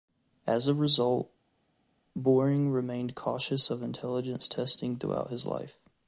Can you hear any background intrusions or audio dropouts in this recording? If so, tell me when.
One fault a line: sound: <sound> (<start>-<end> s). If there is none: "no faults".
no faults